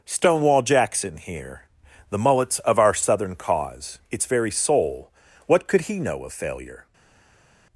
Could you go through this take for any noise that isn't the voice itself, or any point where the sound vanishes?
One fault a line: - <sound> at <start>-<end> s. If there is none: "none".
none